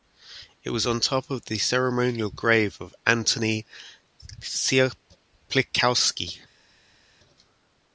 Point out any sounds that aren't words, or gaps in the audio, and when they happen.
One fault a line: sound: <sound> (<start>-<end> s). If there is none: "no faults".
no faults